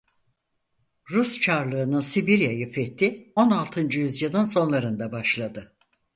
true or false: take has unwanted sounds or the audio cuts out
false